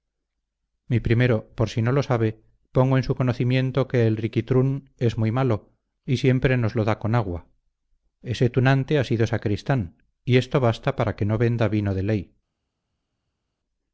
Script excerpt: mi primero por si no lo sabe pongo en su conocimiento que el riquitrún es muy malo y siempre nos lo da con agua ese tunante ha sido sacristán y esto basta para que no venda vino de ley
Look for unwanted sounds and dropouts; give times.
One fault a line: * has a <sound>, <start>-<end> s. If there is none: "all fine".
all fine